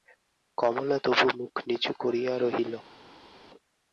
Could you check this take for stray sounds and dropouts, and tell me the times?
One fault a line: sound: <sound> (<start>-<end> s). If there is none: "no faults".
no faults